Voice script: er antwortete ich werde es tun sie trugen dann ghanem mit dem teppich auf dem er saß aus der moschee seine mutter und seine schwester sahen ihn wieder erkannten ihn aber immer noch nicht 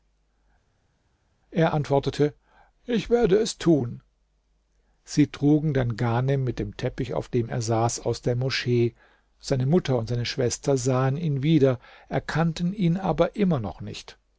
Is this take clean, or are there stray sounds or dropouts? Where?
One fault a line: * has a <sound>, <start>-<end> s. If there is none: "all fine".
all fine